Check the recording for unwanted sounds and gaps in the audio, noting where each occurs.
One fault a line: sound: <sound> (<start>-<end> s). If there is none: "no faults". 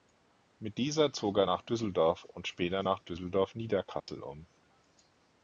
sound: dropout (4.0-4.1 s)